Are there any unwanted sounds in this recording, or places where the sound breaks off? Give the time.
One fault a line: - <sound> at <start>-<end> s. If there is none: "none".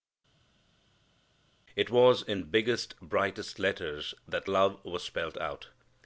none